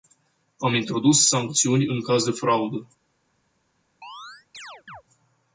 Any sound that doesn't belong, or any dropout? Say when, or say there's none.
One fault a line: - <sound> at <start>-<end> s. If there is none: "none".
- chirp at 4.0-5.0 s